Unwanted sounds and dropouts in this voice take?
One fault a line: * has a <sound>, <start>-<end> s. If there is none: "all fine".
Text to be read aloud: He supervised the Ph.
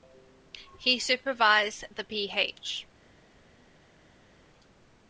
all fine